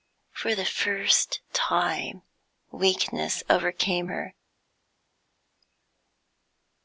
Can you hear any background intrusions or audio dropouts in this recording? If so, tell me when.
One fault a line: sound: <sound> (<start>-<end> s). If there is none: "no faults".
no faults